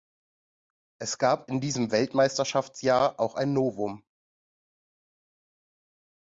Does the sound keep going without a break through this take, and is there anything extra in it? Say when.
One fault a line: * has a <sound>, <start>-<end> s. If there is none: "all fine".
all fine